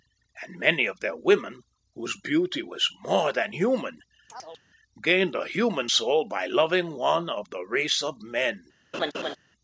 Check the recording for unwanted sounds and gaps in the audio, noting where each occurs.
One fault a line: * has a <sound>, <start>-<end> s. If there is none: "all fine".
* has a chirp, 4.3-4.6 s
* has a laugh, 8.9-9.4 s